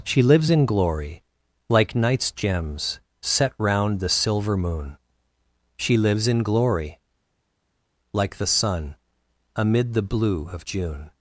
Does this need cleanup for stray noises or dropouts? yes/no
no